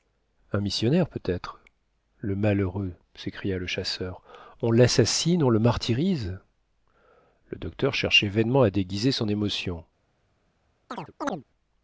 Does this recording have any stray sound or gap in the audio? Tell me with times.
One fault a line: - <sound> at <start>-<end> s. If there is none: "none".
- chirp at 10.9-11.4 s